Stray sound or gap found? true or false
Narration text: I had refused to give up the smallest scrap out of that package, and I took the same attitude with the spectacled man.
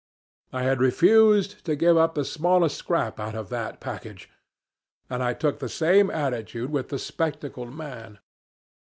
false